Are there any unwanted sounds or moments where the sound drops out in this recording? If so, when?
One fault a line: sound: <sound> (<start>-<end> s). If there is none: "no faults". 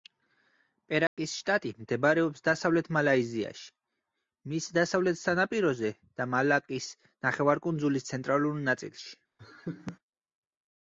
sound: dropout (1.1-1.2 s)
sound: laugh (9.4-10.0 s)